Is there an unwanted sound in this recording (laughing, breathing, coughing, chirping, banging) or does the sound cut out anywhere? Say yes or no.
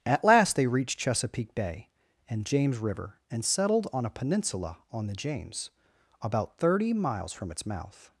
no